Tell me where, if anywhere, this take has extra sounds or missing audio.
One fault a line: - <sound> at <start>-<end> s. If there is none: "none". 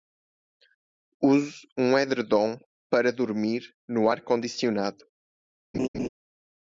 - laugh at 5.7-6.1 s